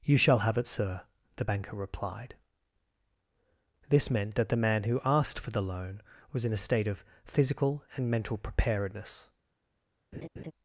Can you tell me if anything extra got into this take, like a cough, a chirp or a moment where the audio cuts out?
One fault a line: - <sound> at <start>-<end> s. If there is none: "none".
- laugh at 10.1-10.5 s